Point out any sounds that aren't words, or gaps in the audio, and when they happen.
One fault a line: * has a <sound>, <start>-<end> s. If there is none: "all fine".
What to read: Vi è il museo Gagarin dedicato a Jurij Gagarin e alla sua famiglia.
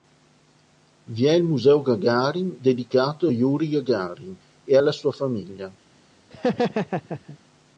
* has a laugh, 6.3-7.4 s